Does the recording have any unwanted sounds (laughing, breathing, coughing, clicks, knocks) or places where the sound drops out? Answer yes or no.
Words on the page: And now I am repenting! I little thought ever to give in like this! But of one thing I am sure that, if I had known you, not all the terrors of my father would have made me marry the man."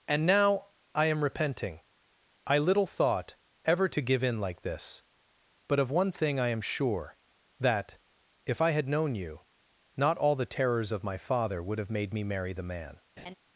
yes